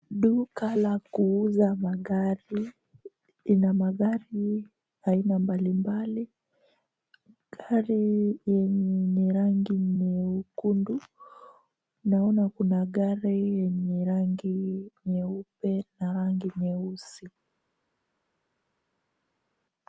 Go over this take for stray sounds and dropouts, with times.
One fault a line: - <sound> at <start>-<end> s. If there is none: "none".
none